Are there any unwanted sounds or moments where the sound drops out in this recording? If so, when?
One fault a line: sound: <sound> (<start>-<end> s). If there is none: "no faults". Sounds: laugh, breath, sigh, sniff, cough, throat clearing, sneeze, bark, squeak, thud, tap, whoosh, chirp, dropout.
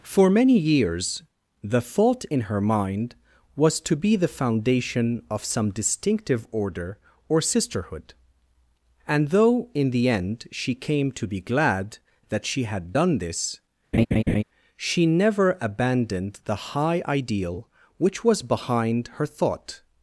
sound: laugh (13.9-14.4 s)